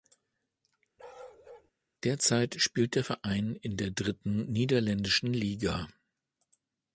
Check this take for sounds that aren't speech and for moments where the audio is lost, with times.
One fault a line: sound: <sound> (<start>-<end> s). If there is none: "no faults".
sound: bark (1.0-1.7 s)